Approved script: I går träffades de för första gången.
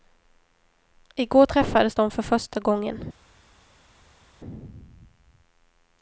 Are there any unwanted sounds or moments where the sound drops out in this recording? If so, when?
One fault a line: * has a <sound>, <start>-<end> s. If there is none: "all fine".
all fine